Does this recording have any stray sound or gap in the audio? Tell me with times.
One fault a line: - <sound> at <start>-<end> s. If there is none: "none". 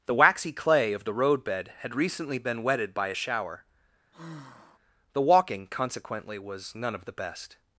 - sigh at 4.1-4.8 s